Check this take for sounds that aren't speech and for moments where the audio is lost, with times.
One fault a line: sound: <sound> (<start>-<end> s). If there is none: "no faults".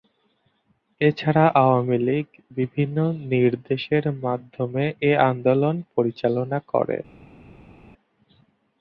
no faults